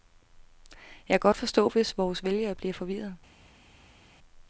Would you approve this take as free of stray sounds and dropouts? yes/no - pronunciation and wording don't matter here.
yes